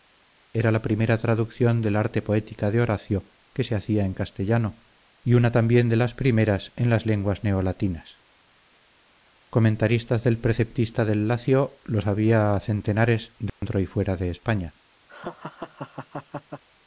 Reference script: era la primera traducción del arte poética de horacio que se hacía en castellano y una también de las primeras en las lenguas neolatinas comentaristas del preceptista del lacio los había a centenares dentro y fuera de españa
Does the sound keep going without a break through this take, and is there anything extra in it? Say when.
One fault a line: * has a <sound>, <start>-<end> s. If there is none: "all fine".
* has a dropout, 13.5-13.6 s
* has a laugh, 15.1-16.6 s